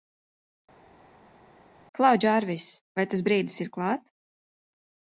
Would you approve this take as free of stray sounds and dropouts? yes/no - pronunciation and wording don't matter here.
yes